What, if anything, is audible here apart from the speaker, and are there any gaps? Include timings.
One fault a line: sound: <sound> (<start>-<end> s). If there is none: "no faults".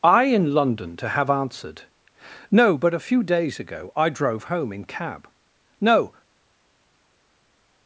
no faults